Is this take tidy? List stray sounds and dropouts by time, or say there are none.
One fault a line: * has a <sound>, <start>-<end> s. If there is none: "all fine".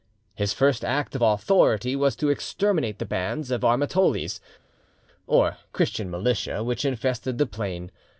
all fine